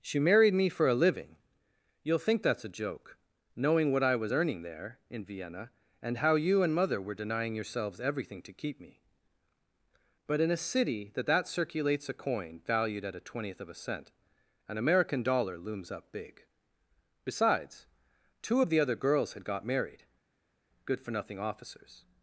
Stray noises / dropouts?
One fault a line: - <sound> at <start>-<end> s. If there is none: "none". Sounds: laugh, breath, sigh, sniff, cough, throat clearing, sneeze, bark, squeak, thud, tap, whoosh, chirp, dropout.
none